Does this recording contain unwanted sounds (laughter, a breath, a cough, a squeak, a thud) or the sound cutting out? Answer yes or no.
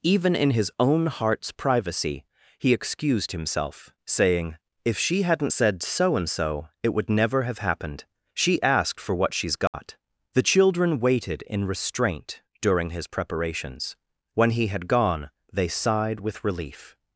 yes